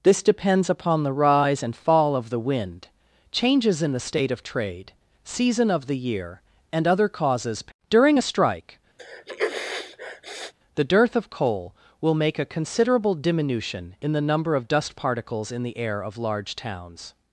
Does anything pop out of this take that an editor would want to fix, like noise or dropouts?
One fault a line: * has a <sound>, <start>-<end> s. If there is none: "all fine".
* has a sneeze, 9.0-10.5 s